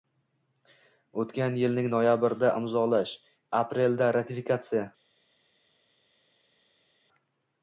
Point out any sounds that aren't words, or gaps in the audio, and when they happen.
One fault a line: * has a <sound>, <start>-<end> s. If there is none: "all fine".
all fine